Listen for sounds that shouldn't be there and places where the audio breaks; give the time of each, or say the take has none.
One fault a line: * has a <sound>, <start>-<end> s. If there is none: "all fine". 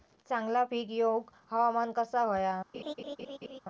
* has a laugh, 2.7-3.6 s